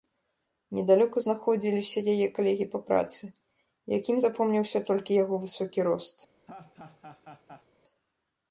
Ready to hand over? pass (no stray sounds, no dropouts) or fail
fail